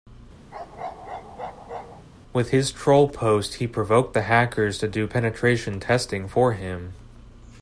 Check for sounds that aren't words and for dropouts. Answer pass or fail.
fail